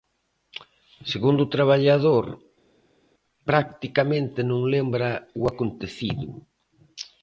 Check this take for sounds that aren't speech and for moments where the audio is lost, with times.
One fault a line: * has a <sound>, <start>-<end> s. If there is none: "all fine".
all fine